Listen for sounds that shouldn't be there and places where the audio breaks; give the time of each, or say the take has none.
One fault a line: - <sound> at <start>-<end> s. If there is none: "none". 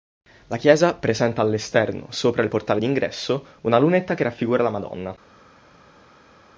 none